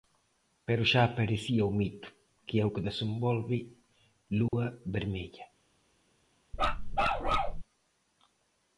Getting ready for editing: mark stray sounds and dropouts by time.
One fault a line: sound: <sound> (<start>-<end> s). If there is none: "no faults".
sound: dropout (4.5-4.5 s)
sound: bark (6.5-7.6 s)